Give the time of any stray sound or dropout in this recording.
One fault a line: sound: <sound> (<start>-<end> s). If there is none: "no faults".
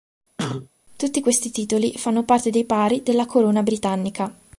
sound: cough (0.4-0.7 s)